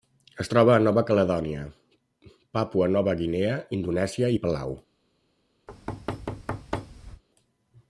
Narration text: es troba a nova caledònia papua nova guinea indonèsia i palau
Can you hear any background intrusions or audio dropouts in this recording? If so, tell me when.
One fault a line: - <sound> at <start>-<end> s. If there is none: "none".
- thud at 5.7-7.2 s